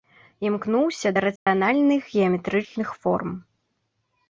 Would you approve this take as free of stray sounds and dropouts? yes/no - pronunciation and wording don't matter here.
no